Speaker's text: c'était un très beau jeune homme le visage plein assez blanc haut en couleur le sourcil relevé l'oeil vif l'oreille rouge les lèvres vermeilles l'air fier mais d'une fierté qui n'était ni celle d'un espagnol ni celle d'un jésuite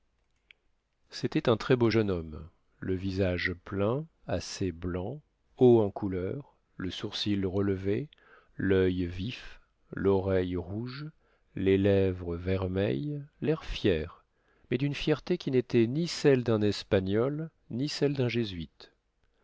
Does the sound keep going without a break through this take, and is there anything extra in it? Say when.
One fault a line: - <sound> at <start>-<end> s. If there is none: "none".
none